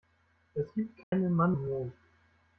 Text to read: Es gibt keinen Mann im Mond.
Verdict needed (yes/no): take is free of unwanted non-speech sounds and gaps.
no